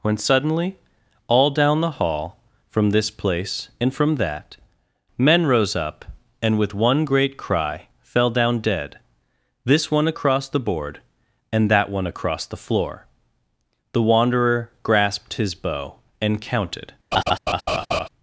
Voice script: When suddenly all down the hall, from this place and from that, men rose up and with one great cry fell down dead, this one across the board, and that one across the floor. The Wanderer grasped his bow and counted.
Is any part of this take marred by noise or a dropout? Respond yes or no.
yes